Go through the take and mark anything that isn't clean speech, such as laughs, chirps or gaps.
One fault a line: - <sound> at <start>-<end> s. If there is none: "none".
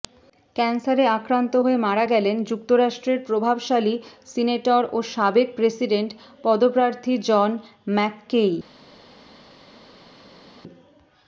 none